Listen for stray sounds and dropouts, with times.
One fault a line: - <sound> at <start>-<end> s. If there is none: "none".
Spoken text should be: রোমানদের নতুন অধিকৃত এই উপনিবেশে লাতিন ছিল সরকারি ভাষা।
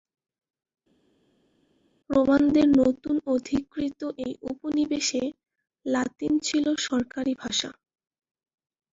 none